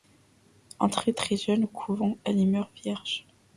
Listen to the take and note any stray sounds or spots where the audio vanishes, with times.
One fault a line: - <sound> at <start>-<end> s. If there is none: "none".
none